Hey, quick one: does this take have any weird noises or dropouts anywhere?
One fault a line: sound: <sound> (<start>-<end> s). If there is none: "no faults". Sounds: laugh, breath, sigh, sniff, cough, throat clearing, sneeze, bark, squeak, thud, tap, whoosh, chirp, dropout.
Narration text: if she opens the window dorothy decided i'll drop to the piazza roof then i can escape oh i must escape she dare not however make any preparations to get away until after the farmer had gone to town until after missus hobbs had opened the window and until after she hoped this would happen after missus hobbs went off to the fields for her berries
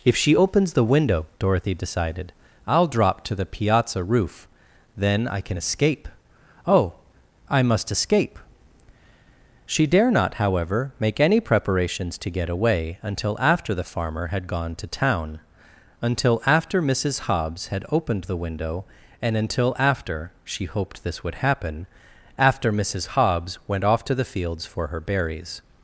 no faults